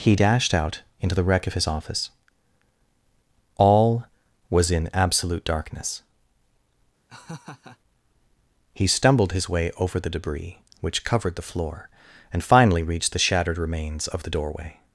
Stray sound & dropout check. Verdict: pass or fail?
fail